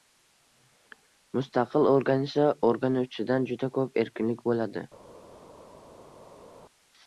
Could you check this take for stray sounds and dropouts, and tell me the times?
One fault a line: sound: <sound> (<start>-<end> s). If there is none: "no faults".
no faults